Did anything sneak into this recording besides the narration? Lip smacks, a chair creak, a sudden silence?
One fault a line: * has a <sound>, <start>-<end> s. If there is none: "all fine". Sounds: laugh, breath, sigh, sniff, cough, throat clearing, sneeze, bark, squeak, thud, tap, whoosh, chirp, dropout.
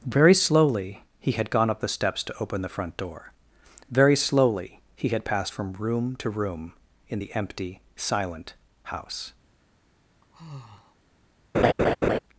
* has a sigh, 10.2-11.0 s
* has a laugh, 11.5-12.2 s